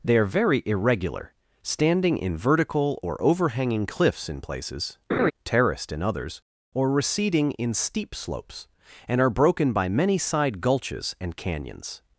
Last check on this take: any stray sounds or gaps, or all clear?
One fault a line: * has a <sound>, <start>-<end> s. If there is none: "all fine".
* has a laugh, 5.1-5.3 s